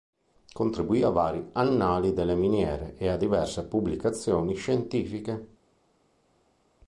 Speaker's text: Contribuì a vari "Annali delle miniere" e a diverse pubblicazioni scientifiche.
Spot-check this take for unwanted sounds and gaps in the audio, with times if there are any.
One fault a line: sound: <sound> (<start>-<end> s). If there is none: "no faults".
no faults